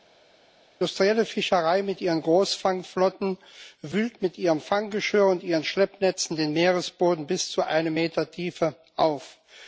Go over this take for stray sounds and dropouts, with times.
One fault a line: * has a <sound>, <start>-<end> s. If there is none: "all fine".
all fine